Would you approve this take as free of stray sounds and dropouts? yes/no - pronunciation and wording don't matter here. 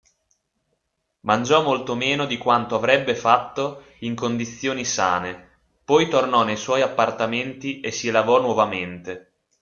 yes